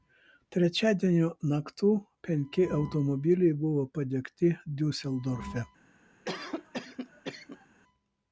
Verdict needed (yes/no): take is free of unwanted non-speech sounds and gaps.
no